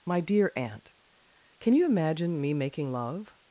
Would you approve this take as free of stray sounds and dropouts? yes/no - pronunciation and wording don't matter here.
yes